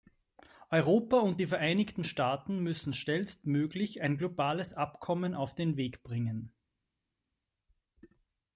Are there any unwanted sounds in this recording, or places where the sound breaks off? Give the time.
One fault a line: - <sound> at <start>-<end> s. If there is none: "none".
none